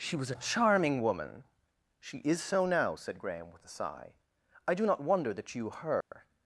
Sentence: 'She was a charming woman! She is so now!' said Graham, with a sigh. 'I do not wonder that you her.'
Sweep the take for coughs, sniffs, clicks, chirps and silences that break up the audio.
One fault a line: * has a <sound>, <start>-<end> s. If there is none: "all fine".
* has a dropout, 6.0-6.1 s